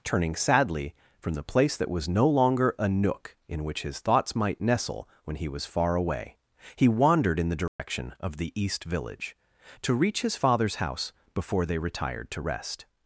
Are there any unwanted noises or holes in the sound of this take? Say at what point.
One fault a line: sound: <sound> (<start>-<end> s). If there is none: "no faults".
sound: dropout (7.7-7.8 s)